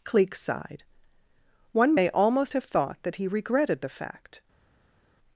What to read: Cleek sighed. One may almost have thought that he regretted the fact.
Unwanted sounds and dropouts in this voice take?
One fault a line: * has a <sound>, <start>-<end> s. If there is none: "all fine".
all fine